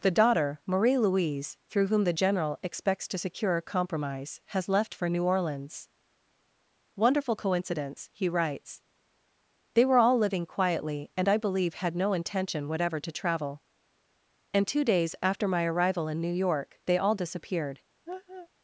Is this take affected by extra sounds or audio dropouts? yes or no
yes